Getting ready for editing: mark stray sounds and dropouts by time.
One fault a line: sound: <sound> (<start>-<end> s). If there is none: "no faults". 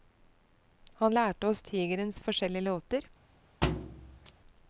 sound: thud (3.6-4.3 s)